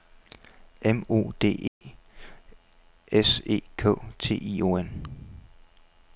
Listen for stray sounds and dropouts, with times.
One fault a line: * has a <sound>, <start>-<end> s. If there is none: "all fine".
* has a dropout, 1.7-1.8 s